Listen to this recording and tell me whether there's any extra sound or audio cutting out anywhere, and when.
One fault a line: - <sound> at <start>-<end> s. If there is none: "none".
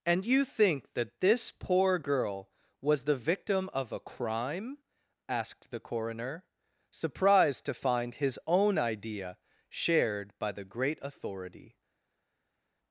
none